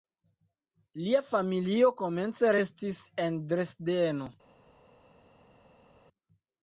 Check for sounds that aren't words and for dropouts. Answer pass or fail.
pass